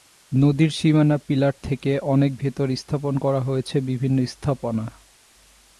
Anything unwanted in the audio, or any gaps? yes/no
no